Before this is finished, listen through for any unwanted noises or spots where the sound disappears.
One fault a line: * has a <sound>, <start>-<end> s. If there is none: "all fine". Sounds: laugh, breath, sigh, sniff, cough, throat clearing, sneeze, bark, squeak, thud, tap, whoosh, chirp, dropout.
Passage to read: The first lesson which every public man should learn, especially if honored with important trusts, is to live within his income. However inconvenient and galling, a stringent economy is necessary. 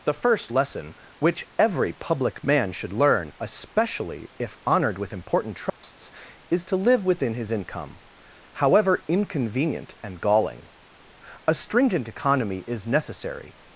* has a dropout, 5.7-5.8 s